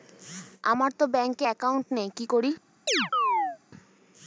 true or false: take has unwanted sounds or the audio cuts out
true